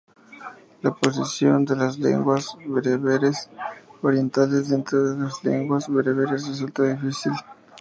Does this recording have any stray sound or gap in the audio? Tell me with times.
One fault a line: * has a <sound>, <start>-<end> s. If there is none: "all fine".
all fine